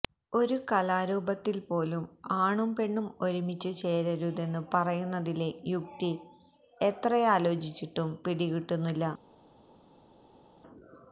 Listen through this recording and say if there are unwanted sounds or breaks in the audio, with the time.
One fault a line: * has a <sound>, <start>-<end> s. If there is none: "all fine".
all fine